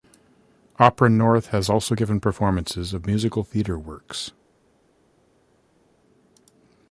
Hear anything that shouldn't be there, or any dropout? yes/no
no